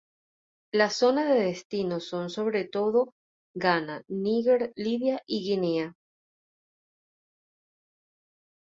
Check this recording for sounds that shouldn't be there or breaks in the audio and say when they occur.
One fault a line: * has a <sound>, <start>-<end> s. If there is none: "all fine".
all fine